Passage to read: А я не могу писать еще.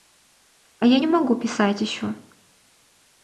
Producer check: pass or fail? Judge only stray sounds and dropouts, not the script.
pass